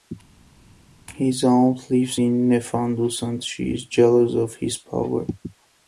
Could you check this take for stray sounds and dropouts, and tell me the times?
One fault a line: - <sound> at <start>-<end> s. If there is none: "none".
none